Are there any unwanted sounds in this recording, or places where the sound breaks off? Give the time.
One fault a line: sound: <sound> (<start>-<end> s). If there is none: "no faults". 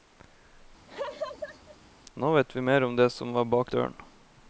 sound: laugh (0.9-1.8 s)